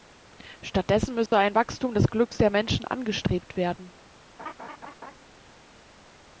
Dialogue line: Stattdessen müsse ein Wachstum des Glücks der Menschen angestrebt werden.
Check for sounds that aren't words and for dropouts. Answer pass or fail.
fail